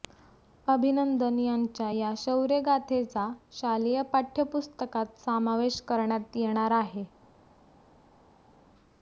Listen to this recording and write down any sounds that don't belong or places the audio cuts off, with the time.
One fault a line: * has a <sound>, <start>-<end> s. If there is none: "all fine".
all fine